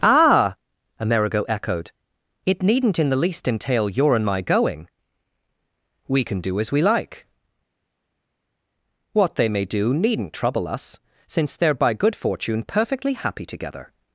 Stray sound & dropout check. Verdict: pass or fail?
pass